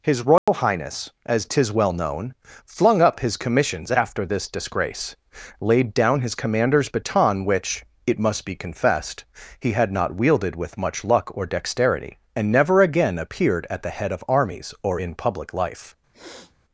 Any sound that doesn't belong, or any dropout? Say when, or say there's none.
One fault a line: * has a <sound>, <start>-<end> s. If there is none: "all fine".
* has a dropout, 0.4-0.5 s
* has a sniff, 16.1-16.5 s